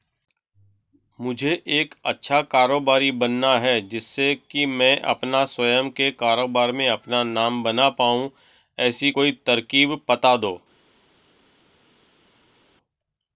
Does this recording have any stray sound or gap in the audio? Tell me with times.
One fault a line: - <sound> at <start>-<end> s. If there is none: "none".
none